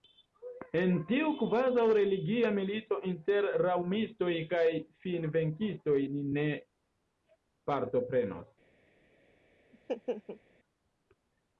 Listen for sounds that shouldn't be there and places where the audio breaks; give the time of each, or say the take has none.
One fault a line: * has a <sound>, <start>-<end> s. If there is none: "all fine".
* has a laugh, 9.7-10.4 s